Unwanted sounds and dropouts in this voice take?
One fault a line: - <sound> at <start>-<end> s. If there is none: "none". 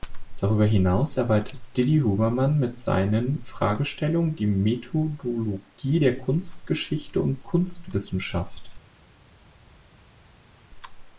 none